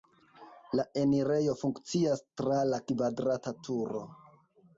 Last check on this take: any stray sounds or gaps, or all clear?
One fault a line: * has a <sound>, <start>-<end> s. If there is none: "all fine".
all fine